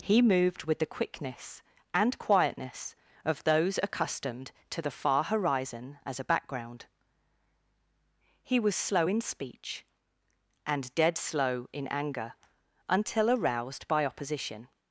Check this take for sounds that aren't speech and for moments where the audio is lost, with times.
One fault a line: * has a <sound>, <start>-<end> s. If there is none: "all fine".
all fine